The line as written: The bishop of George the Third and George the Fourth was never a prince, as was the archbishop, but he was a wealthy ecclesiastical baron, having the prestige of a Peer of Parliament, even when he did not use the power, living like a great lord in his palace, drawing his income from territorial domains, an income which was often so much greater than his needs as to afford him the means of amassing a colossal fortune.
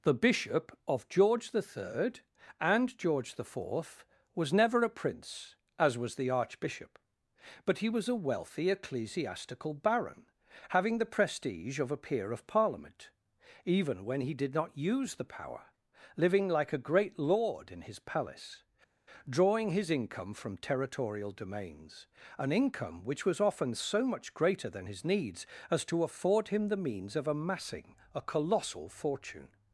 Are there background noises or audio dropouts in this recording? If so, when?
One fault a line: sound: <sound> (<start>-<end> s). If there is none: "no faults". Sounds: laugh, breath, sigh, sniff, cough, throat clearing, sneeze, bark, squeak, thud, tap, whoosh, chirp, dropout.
no faults